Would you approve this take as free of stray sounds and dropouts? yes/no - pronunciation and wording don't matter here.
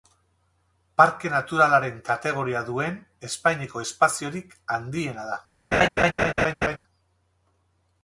no